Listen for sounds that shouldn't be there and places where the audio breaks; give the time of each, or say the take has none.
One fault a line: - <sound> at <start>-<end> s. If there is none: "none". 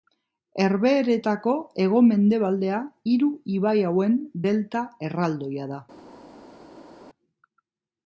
none